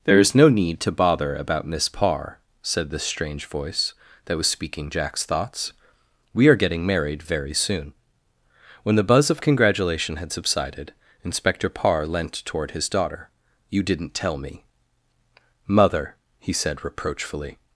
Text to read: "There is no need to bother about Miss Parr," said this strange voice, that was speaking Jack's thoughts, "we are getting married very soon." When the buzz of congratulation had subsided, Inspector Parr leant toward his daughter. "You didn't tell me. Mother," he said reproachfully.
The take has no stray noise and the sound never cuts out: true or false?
true